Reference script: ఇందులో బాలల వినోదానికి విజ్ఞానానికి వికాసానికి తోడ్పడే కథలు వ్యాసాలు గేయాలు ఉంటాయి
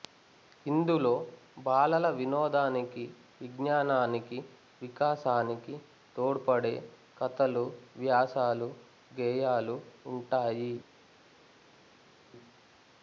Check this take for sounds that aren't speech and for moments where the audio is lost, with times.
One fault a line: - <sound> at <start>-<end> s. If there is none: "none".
none